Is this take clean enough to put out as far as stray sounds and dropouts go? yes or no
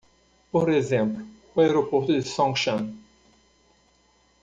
yes